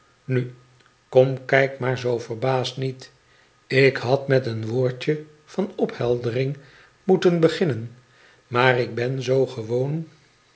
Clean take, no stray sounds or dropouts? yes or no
yes